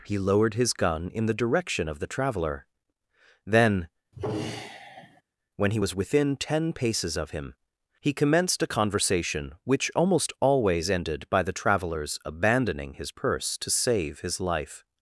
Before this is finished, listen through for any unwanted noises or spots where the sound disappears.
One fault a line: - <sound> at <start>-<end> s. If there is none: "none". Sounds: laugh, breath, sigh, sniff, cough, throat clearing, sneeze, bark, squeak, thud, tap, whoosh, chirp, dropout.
- sigh at 4.1-5.2 s